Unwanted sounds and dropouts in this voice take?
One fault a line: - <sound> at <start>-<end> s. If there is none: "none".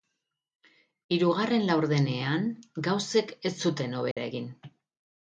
- dropout at 4.1-4.2 s